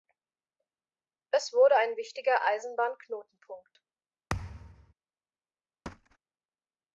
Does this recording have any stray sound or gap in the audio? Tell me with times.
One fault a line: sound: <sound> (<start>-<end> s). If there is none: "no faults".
sound: thud (4.3-4.9 s)
sound: thud (5.9-6.2 s)